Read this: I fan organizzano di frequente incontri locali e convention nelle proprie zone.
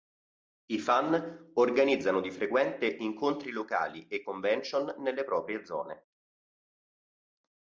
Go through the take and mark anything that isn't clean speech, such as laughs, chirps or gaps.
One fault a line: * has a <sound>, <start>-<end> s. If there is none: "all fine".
all fine